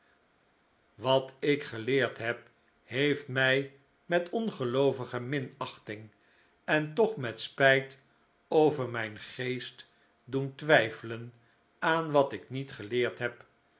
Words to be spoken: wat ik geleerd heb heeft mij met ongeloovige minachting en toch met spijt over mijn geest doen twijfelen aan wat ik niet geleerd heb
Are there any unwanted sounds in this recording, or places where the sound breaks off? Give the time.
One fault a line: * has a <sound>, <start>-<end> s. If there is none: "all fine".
all fine